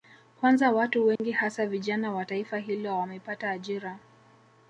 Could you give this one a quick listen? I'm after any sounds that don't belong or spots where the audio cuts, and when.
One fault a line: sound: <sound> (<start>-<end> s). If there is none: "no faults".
sound: dropout (1.2-1.2 s)